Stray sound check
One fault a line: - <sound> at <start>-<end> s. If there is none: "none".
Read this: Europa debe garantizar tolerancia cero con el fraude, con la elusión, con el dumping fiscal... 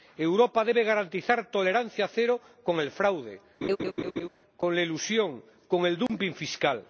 - laugh at 3.6-4.3 s
- dropout at 6.1-6.1 s